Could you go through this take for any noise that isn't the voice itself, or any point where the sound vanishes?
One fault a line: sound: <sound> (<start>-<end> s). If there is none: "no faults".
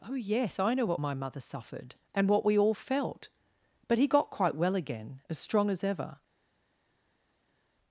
no faults